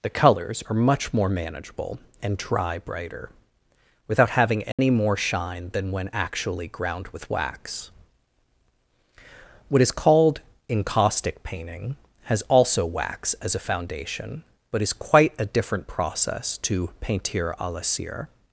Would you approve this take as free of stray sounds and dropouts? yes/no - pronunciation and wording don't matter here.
no